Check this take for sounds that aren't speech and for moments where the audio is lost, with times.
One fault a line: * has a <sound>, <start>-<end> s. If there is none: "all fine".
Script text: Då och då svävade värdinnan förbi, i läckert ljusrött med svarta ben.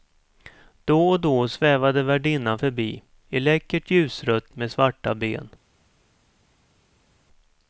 all fine